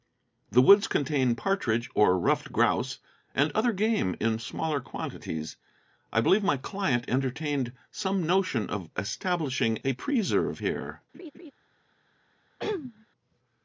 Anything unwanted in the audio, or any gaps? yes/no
yes